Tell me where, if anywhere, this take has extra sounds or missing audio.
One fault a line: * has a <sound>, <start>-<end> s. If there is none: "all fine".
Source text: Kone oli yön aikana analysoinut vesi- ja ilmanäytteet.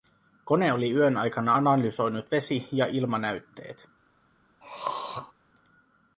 * has a throat clearing, 4.6-5.3 s